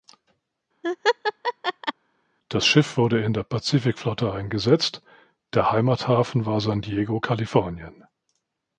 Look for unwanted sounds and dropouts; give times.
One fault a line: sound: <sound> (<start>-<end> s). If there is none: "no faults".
sound: laugh (0.8-1.9 s)